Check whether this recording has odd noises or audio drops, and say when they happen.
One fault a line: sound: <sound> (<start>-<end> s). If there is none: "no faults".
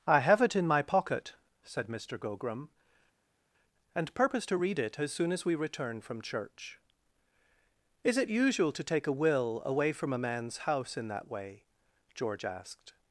no faults